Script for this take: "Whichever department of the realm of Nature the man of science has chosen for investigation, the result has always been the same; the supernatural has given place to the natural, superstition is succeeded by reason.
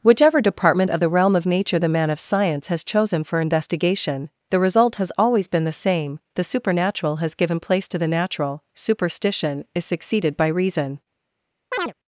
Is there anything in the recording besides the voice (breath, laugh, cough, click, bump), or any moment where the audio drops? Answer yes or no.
yes